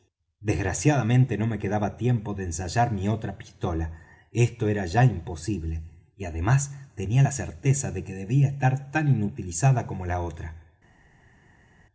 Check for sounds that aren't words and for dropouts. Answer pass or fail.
pass